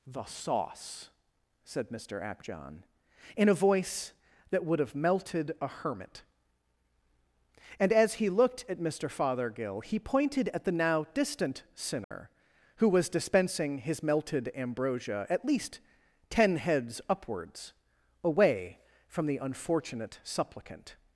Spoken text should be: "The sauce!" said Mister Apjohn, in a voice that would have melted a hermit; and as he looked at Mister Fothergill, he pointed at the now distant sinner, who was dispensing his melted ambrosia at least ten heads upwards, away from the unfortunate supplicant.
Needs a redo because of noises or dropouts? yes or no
yes